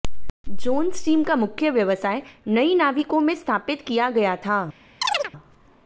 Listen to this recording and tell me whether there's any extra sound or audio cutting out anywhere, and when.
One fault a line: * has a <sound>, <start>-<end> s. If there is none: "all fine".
* has a chirp, 5.0-5.3 s